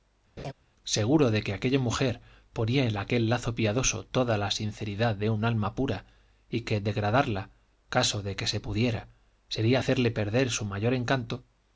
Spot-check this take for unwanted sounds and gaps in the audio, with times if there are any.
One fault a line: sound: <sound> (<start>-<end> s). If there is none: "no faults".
sound: laugh (0.4-0.5 s)